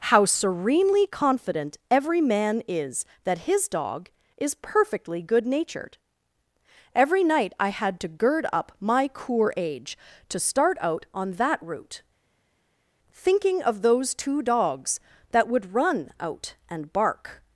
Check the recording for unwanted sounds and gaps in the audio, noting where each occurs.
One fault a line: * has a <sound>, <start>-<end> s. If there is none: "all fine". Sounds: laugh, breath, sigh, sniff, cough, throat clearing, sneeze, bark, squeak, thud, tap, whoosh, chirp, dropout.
all fine